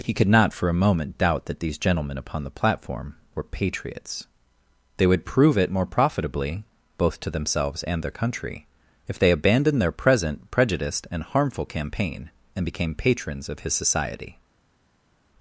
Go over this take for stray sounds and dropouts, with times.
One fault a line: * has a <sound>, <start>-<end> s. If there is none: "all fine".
all fine